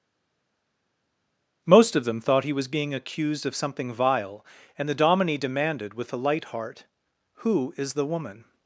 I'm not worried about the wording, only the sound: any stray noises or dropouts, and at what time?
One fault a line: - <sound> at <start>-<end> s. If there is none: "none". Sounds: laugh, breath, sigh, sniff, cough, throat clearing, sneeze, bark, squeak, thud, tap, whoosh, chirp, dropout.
none